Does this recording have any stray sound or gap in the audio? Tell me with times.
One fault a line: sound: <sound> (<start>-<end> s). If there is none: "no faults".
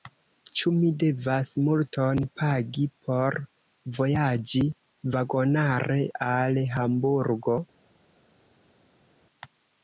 no faults